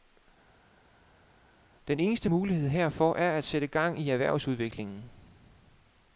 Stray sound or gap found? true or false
false